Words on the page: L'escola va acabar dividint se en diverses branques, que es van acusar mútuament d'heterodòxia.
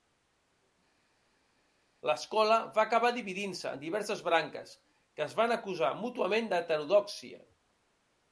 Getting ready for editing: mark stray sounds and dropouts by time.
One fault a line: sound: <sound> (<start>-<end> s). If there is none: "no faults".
no faults